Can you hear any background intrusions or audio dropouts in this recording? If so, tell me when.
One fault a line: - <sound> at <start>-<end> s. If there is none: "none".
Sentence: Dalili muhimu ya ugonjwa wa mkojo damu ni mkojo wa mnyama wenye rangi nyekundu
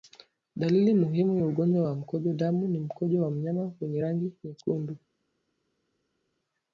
none